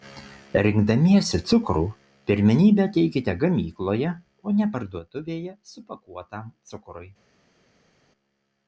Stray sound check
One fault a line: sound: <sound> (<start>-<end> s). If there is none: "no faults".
no faults